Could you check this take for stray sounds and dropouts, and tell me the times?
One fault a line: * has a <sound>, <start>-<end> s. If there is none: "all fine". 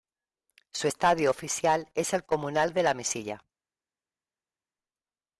all fine